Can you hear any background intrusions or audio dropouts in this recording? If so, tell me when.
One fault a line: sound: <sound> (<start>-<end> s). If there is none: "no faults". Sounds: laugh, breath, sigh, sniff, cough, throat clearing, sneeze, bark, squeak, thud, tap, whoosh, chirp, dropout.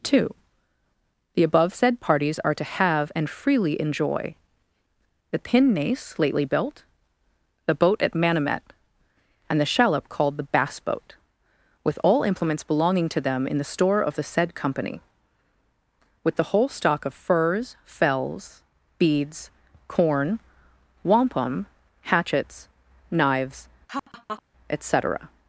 sound: laugh (23.9-24.4 s)